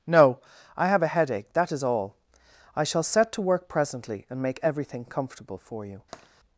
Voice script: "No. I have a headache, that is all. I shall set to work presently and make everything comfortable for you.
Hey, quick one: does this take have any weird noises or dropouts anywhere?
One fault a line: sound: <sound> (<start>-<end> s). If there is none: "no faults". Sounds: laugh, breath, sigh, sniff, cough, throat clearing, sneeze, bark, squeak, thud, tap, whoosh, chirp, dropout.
sound: tap (6.1-6.3 s)